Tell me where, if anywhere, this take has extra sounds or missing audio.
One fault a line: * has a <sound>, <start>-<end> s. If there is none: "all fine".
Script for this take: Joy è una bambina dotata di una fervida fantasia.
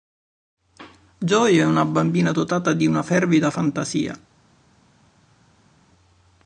all fine